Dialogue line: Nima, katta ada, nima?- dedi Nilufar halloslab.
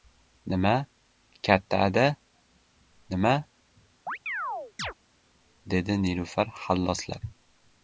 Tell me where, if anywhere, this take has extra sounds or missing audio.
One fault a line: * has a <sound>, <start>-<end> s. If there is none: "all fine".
* has a chirp, 4.1-4.9 s